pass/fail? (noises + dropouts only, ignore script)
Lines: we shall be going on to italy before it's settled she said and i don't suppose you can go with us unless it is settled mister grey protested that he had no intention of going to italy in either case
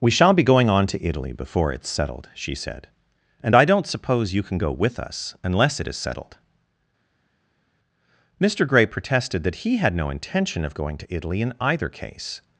pass